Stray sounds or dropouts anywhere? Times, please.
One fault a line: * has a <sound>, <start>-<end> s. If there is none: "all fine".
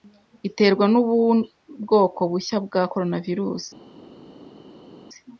all fine